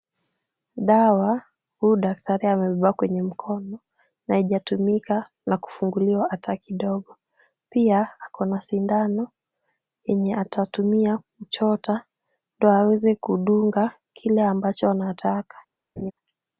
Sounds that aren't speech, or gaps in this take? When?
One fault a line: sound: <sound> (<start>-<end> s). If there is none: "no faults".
sound: laugh (16.0-16.1 s)